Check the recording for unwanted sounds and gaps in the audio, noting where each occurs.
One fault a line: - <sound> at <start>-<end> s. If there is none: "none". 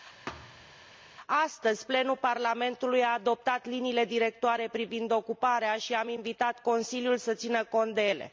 - thud at 0.3-0.8 s